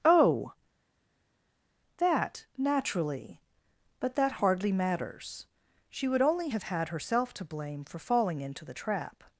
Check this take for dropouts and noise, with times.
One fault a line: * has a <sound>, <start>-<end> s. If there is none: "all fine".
all fine